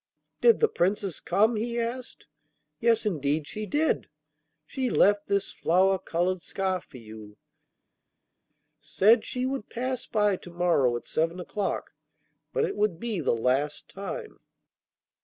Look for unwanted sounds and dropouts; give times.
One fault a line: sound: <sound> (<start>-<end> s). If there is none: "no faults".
no faults